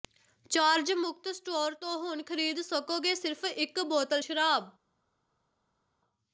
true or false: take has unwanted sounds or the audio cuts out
false